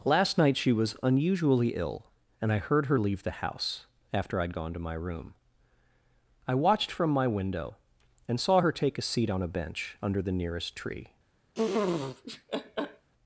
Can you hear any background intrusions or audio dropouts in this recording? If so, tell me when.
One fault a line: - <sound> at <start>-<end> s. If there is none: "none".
- laugh at 11.5-13.1 s